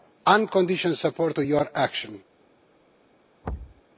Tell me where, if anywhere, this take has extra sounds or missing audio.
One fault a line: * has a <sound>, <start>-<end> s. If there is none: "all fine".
* has a thud, 3.4-3.8 s